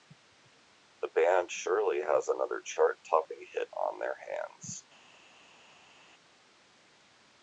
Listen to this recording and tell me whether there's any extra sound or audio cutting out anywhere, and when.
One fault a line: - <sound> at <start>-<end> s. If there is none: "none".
none